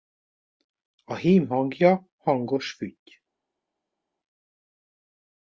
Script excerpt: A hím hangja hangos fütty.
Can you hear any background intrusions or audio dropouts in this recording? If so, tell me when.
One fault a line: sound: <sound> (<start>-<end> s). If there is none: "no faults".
no faults